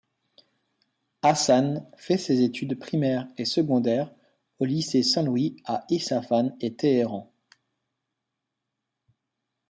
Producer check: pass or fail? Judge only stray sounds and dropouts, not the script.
pass